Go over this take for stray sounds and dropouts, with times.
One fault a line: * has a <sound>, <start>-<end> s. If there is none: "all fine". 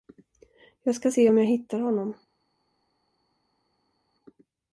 all fine